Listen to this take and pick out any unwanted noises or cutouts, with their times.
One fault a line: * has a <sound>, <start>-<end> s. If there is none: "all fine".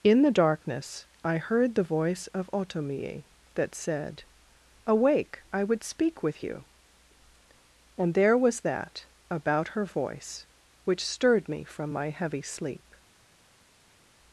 all fine